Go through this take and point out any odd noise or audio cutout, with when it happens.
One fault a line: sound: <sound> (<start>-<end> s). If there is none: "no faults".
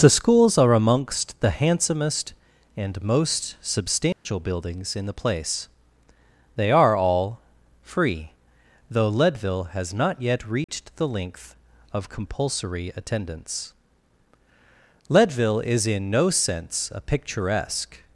sound: dropout (4.1-4.3 s)
sound: dropout (10.6-10.7 s)